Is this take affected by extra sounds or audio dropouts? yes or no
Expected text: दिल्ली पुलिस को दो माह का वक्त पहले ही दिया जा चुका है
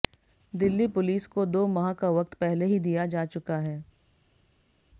no